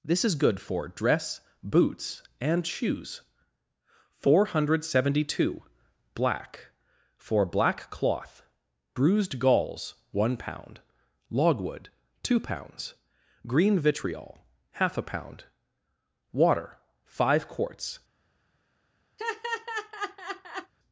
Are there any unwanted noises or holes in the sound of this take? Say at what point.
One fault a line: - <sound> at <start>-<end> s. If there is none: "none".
- laugh at 19.2-20.7 s